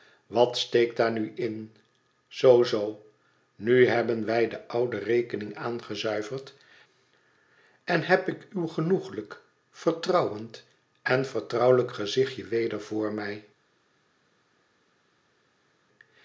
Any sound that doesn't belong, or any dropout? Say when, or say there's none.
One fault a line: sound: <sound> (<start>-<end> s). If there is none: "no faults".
no faults